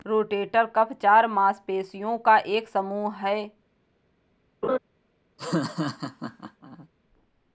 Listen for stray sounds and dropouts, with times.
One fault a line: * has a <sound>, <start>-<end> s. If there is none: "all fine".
* has a laugh, 4.6-4.8 s
* has a laugh, 5.4-6.9 s